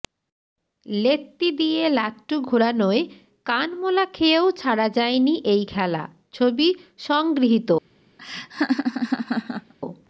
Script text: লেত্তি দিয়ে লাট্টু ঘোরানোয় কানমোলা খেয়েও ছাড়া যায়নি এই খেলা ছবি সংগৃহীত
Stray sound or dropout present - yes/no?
yes